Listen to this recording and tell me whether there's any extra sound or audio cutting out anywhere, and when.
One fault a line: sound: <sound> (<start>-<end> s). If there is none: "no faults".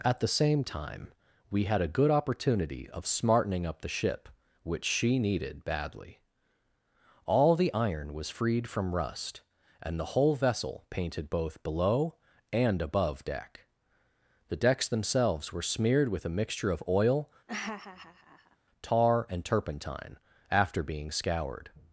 sound: laugh (17.5-18.6 s)